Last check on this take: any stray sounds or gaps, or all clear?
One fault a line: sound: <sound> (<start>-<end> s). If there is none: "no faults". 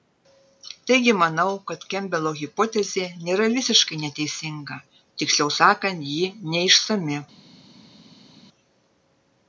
no faults